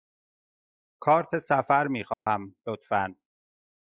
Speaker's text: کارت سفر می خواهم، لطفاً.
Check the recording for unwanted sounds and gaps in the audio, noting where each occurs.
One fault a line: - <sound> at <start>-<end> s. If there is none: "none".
- dropout at 2.1-2.3 s